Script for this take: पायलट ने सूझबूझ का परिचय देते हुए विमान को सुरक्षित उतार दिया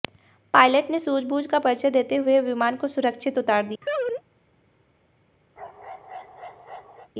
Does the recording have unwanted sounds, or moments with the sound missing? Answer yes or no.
yes